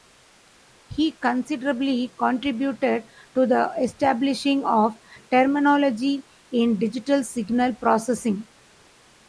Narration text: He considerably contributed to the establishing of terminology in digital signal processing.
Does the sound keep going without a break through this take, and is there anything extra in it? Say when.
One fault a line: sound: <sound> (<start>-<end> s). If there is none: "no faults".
no faults